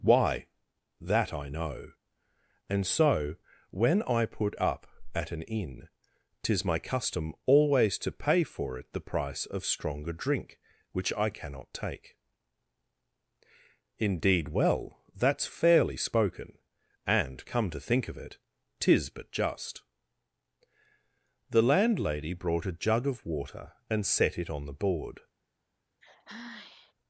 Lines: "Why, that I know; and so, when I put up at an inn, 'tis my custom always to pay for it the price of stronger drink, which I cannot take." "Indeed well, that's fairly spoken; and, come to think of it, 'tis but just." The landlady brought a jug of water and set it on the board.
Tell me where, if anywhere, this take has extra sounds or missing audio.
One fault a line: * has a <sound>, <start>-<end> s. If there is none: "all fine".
* has a sigh, 26.0-26.9 s